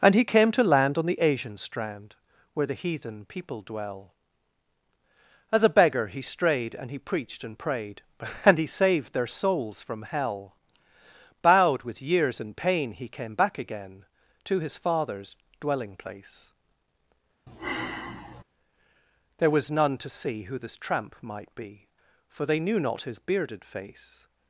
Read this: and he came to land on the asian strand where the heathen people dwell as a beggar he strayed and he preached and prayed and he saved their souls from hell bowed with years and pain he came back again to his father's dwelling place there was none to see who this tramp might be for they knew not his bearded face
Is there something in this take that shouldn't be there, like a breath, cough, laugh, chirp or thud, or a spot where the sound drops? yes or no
yes